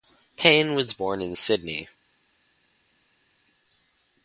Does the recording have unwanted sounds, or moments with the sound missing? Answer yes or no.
no